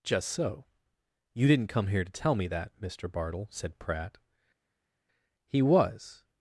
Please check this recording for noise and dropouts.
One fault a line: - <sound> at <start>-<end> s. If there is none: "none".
none